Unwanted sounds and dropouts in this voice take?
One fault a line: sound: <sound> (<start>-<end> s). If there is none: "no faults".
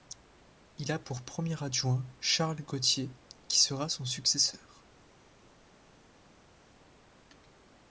no faults